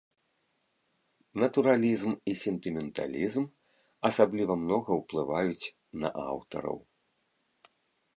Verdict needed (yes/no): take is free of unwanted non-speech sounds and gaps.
yes